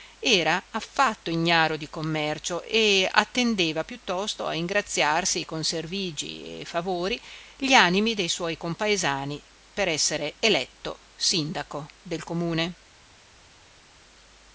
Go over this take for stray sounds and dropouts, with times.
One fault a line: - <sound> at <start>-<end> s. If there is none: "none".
none